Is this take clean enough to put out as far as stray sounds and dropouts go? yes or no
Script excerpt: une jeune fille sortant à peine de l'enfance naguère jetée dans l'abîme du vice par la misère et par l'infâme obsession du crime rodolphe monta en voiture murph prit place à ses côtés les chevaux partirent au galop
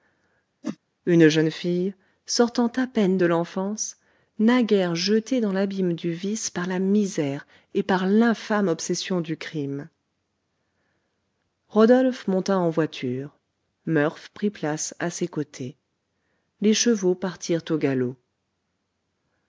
no